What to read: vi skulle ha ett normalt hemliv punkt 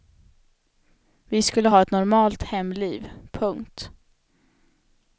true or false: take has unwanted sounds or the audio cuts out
false